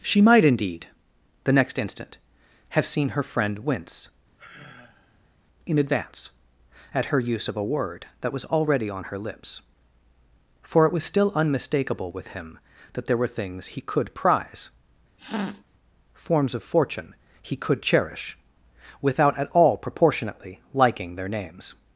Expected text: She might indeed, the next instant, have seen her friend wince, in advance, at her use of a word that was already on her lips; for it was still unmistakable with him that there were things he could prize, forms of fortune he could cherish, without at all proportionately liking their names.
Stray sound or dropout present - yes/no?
yes